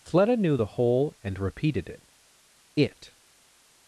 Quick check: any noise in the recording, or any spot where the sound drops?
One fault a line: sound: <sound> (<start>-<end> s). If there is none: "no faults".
no faults